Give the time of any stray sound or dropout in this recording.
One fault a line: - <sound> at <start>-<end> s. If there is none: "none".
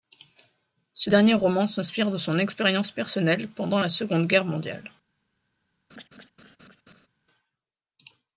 - laugh at 5.9-7.1 s